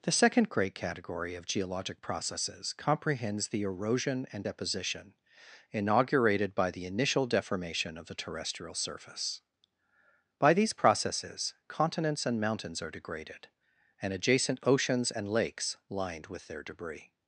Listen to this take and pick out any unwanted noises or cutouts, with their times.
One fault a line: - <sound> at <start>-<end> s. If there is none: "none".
none